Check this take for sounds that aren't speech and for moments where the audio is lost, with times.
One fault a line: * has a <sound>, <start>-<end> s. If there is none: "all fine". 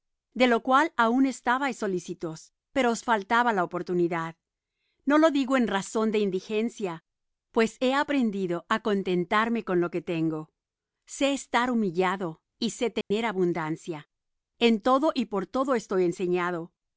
* has a dropout, 13.0-13.1 s